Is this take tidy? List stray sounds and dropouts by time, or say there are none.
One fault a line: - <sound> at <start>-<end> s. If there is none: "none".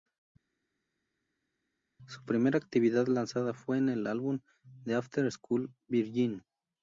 none